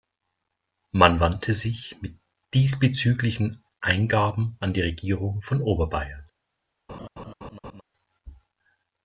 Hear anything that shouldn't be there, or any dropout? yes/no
yes